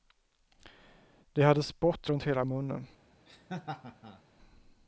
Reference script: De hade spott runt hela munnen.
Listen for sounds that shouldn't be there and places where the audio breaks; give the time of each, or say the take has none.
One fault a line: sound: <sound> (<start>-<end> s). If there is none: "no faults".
sound: laugh (3.3-4.2 s)